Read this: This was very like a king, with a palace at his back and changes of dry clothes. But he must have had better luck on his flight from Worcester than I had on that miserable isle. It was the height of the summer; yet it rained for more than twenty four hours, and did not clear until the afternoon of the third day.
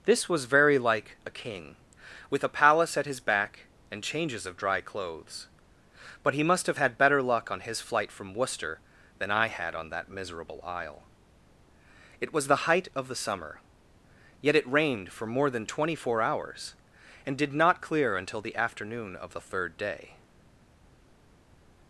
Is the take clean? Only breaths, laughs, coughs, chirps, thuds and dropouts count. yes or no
yes